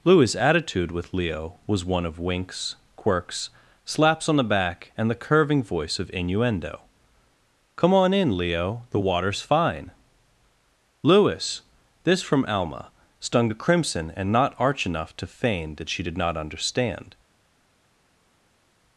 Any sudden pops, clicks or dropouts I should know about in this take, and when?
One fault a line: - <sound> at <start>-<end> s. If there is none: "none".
none